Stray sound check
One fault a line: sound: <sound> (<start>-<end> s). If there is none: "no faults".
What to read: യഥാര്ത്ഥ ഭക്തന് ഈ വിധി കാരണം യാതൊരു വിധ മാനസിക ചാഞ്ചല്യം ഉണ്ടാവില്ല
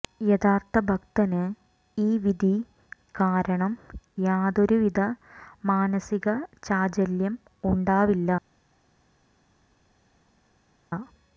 no faults